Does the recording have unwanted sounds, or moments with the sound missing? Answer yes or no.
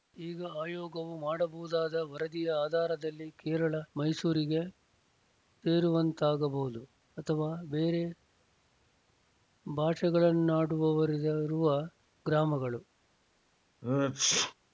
yes